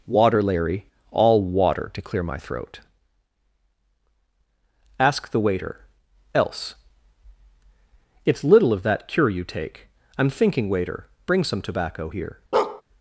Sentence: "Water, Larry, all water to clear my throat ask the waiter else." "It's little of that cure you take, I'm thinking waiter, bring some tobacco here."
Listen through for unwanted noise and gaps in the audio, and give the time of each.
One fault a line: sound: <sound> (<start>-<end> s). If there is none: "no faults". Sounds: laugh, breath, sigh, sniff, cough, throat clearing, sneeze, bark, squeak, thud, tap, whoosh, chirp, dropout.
sound: bark (12.5-12.8 s)